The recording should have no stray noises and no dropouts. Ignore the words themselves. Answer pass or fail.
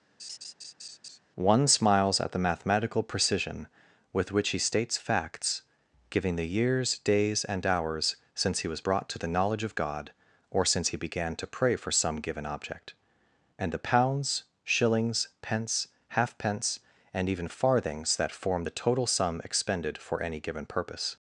fail